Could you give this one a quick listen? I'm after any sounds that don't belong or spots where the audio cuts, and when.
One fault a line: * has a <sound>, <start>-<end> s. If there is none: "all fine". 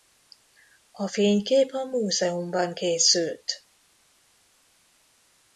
all fine